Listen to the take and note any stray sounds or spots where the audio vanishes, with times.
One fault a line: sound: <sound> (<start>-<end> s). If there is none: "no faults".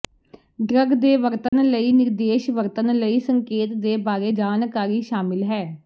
sound: dropout (1.5-1.5 s)